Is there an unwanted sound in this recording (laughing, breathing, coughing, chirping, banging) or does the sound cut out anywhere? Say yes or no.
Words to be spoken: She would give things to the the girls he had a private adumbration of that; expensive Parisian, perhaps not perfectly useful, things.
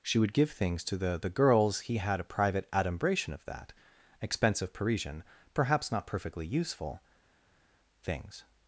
no